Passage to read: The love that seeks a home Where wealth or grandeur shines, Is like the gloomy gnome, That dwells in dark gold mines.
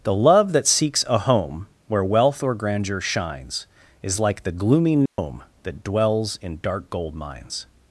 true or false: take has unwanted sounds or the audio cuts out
true